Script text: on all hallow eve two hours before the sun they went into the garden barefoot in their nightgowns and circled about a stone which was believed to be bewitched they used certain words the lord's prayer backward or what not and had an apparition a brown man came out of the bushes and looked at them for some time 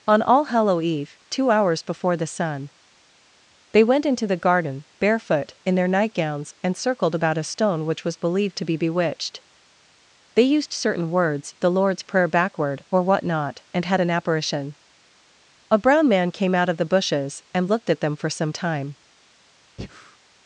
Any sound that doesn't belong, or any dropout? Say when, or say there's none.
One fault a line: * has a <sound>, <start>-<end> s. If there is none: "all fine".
* has a breath, 19.8-20.2 s